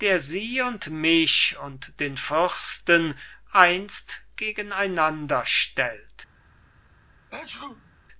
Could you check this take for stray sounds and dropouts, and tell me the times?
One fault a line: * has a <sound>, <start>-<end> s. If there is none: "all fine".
* has a sneeze, 7.3-7.9 s